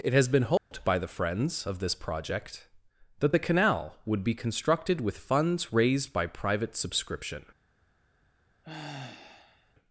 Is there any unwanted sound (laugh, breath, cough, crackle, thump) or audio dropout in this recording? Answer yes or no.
yes